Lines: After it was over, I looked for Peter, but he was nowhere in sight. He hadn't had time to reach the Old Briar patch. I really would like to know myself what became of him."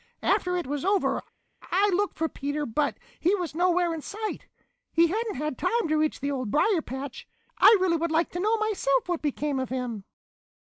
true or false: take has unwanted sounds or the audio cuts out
false